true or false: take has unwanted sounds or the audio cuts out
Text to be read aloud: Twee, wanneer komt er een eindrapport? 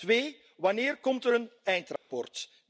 true